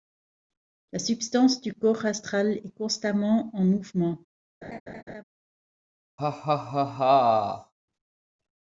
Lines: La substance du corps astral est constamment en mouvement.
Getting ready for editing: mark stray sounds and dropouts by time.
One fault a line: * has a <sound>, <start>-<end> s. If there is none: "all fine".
* has a laugh, 4.6-5.2 s
* has a laugh, 6.2-7.7 s